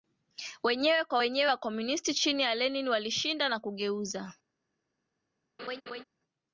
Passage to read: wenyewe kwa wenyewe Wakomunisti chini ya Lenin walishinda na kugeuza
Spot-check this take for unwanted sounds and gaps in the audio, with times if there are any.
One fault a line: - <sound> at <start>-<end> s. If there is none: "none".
- laugh at 5.6-6.0 s